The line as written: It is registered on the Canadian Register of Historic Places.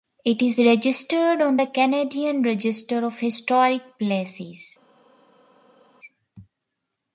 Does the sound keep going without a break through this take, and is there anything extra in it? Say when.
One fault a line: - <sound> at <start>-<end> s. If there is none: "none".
none